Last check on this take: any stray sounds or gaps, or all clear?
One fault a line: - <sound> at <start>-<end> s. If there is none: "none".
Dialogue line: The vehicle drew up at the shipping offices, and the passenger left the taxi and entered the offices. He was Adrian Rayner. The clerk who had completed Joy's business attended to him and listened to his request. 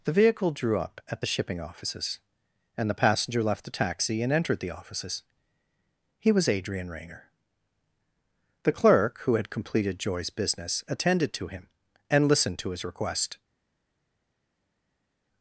none